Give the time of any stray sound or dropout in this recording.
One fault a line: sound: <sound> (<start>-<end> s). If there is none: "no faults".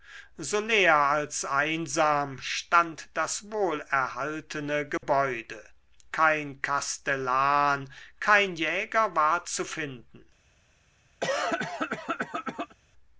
sound: dropout (5.0-5.0 s)
sound: cough (11.2-12.8 s)